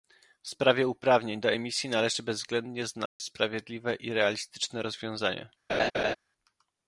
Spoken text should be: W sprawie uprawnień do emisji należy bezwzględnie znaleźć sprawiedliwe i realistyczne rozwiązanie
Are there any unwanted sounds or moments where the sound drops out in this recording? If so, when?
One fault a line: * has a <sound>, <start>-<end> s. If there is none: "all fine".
* has a dropout, 3.1-3.2 s
* has a laugh, 5.7-6.2 s